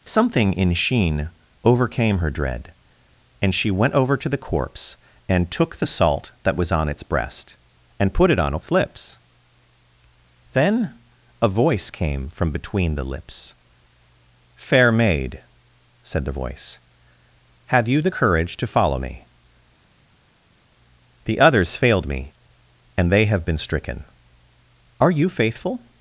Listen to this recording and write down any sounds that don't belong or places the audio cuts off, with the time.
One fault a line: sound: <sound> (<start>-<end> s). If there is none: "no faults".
no faults